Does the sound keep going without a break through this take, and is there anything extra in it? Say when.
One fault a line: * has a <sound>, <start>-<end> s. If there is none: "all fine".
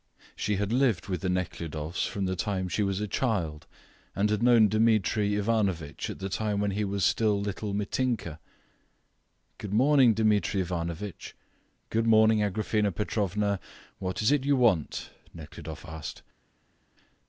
all fine